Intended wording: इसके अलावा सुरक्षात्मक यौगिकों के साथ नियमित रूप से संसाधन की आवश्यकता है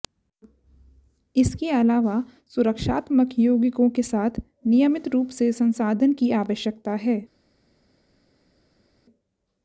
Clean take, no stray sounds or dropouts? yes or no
yes